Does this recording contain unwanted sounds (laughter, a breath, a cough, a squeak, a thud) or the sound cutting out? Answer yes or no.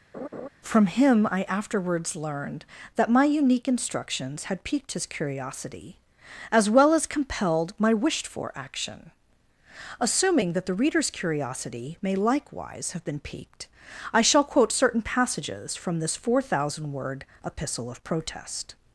yes